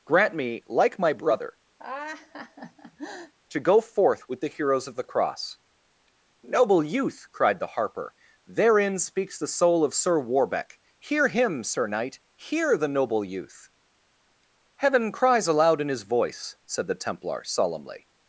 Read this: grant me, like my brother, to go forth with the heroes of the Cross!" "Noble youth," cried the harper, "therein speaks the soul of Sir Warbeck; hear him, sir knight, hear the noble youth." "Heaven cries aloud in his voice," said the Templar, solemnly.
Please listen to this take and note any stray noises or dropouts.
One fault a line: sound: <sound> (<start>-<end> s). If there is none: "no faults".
sound: laugh (1.8-3.3 s)